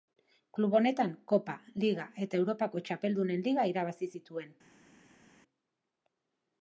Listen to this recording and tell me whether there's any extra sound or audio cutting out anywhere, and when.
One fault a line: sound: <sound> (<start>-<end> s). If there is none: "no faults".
no faults